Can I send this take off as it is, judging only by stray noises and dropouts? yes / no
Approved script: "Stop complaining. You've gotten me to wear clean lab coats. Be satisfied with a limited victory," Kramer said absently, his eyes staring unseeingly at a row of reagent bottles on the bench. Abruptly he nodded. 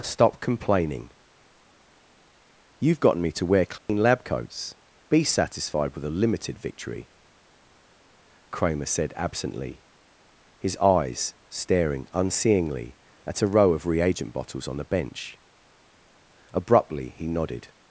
no